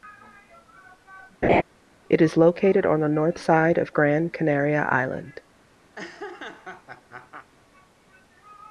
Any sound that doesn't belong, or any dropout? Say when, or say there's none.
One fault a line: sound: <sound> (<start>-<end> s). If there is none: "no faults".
sound: laugh (1.4-1.6 s)
sound: laugh (5.9-7.5 s)